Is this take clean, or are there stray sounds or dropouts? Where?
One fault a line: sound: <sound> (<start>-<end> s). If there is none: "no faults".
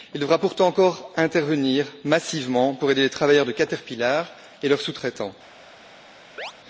sound: chirp (6.4-6.5 s)